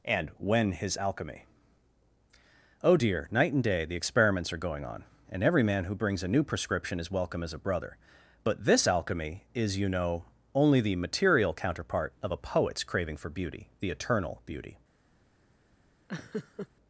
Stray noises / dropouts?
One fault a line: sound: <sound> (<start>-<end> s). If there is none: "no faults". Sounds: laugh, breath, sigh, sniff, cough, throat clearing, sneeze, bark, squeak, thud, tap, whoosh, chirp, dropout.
sound: laugh (16.1-16.7 s)